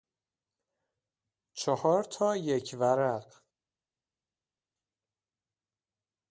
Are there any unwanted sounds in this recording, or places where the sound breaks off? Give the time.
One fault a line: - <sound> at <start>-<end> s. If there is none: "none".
none